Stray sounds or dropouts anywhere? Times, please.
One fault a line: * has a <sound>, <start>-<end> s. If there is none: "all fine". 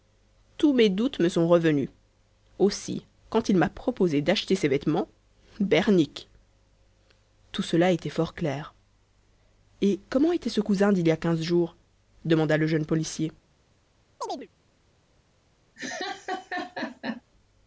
* has a chirp, 14.2-14.5 s
* has a laugh, 15.8-17.2 s